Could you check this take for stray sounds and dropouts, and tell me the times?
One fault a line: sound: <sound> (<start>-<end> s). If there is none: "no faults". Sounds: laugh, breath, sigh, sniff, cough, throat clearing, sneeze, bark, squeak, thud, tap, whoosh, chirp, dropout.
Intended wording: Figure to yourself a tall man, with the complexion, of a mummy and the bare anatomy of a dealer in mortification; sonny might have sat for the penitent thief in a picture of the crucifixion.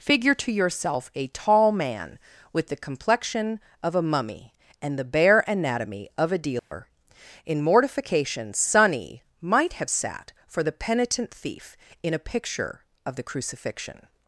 sound: dropout (6.6-6.7 s)